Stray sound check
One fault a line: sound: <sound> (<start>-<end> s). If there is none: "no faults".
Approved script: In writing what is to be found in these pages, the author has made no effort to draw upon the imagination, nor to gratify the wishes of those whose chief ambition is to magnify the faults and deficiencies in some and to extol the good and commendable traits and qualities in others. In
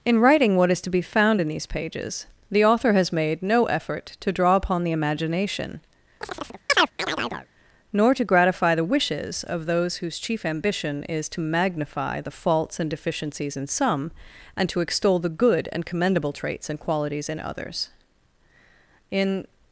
sound: chirp (6.2-7.5 s)